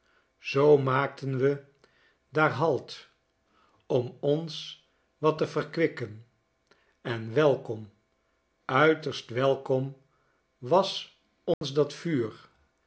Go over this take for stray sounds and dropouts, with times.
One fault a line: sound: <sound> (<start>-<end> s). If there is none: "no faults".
sound: dropout (11.5-11.6 s)